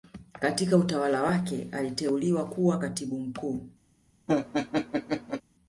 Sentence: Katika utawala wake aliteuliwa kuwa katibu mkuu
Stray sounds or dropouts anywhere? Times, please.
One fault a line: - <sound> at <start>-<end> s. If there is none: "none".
- laugh at 4.3-5.4 s